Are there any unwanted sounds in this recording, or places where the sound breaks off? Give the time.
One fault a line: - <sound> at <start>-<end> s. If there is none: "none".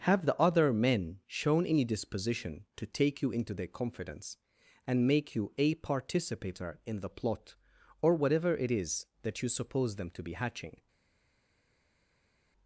none